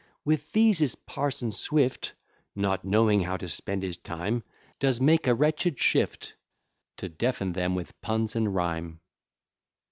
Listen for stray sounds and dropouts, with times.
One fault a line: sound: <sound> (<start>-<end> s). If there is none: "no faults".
no faults